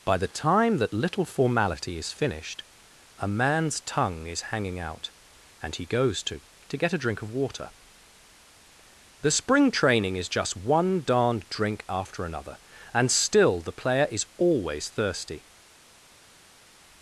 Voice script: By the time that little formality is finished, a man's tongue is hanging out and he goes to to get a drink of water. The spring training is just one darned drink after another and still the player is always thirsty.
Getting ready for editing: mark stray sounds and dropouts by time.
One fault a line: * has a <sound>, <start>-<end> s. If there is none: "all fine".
all fine